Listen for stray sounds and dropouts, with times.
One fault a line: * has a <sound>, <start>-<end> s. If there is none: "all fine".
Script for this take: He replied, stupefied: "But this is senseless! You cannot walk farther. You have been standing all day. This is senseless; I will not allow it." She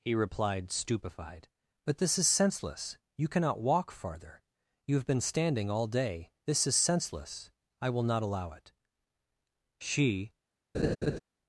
* has a laugh, 10.7-11.2 s